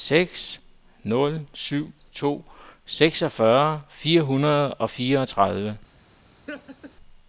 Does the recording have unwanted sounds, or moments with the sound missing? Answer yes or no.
yes